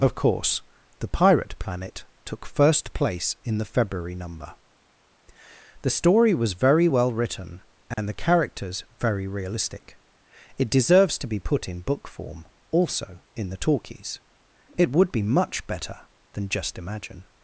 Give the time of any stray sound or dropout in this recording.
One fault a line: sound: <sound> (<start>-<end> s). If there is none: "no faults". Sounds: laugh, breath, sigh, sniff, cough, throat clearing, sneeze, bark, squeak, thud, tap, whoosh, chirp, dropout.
sound: dropout (7.9-8.0 s)